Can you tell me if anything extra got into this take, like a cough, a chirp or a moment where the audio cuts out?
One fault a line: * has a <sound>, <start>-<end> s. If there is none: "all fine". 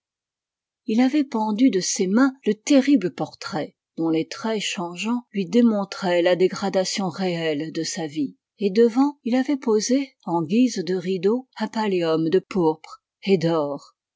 all fine